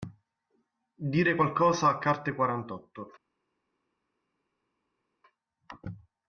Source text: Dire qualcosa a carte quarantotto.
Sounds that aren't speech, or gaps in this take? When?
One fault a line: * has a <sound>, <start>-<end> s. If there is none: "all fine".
all fine